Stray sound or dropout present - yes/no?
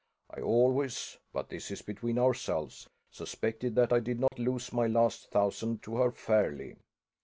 yes